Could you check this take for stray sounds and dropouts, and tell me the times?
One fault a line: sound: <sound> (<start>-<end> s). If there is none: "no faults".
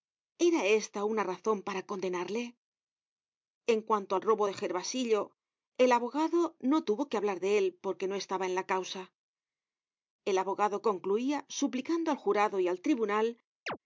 sound: chirp (13.7-13.8 s)